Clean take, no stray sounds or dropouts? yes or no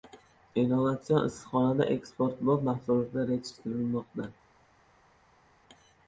yes